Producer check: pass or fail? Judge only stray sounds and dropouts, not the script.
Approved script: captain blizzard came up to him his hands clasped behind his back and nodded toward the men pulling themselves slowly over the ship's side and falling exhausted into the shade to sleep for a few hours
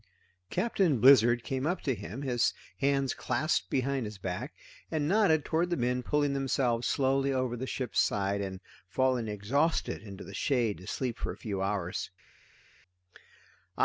pass